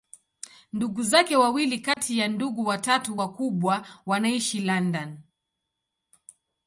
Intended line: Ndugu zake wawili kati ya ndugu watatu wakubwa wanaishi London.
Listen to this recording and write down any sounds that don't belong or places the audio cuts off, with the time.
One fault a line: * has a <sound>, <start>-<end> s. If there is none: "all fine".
* has a dropout, 1.9-2.0 s